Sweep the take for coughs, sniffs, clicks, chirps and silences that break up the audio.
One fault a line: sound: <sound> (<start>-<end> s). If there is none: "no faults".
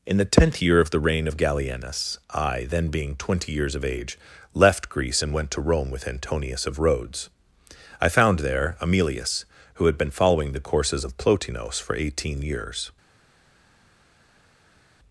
no faults